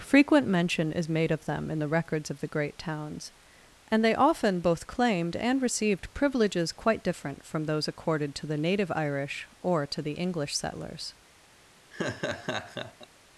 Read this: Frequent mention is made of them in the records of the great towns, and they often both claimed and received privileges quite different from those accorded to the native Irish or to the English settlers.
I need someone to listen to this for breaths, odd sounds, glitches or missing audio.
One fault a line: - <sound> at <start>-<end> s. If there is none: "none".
- laugh at 11.9-13.1 s